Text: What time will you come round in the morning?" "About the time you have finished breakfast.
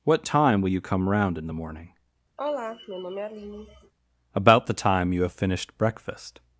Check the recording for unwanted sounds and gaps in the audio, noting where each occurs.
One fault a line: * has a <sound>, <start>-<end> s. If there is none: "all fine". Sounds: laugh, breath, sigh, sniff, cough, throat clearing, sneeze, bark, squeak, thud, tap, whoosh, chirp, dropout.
* has a sigh, 2.4-3.9 s